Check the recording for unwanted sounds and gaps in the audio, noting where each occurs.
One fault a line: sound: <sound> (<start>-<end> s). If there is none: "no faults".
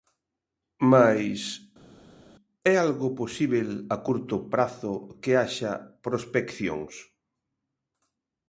no faults